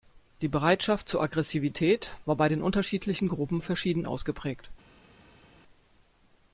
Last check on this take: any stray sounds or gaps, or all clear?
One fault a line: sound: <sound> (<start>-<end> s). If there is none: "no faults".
no faults